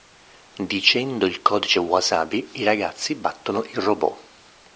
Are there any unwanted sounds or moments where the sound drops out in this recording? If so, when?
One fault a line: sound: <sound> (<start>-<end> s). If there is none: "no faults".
no faults